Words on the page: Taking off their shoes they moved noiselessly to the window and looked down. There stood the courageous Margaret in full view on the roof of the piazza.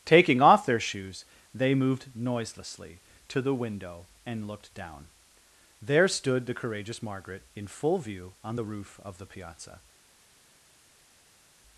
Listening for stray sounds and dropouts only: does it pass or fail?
pass